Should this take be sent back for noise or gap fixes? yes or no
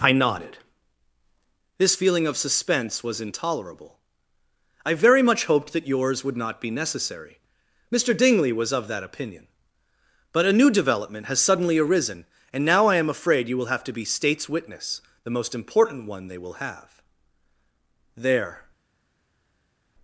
no